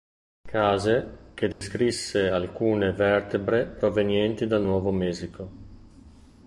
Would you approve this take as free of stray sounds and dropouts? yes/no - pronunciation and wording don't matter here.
no